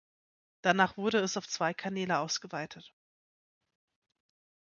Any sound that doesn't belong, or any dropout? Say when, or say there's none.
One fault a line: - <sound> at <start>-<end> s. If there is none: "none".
none